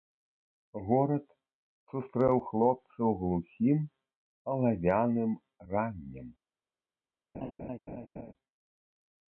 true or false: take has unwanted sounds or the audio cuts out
true